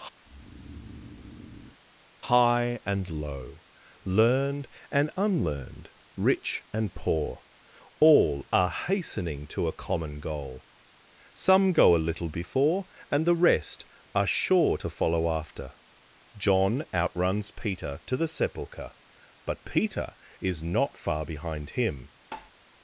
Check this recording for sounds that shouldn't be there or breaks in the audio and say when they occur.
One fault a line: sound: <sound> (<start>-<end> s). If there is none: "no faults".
sound: breath (0.2-1.8 s)
sound: tap (22.3-22.5 s)